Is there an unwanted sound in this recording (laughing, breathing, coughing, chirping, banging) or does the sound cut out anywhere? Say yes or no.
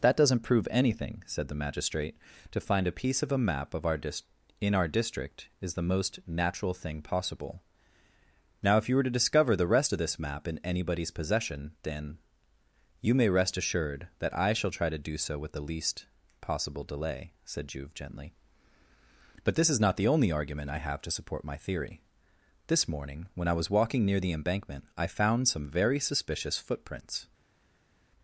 no